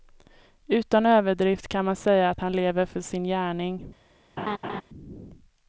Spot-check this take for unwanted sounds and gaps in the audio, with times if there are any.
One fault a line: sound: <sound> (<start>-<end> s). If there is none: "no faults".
sound: laugh (4.4-4.8 s)